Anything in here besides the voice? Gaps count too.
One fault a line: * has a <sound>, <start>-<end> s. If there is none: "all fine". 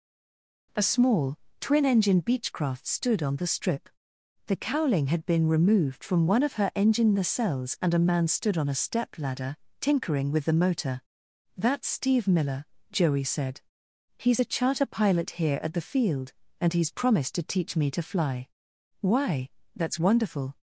all fine